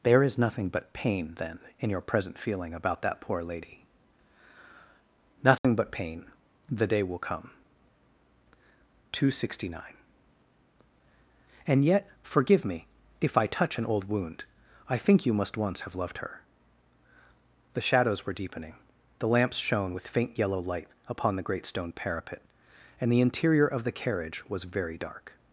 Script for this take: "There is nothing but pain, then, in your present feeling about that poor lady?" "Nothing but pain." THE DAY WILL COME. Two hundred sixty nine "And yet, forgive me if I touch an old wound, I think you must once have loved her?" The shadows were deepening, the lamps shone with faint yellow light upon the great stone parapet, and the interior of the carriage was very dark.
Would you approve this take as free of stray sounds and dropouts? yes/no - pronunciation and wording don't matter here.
no